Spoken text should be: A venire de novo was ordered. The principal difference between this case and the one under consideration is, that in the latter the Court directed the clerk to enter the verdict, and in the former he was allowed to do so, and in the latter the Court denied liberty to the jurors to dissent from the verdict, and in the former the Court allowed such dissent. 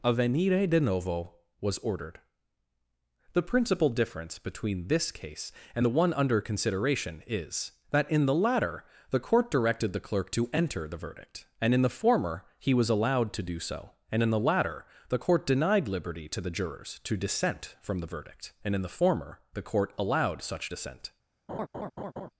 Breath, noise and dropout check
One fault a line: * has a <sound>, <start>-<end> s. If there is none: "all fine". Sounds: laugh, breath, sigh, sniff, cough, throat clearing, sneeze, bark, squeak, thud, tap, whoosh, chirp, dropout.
* has a laugh, 21.5-22.3 s